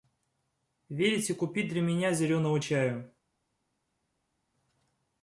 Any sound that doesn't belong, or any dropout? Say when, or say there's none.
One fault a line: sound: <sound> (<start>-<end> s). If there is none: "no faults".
no faults